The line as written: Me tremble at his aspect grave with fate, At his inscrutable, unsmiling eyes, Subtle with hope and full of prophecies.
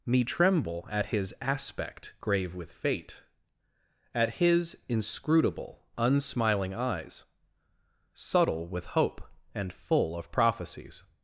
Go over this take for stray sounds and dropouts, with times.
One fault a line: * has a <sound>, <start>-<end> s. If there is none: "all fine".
all fine